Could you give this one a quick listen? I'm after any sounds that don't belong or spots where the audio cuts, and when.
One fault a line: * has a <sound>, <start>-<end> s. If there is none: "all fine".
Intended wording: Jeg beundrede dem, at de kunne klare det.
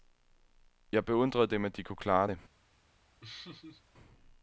* has a laugh, 3.2-3.8 s